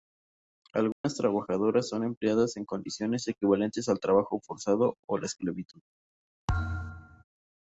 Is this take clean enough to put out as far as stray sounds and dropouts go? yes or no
no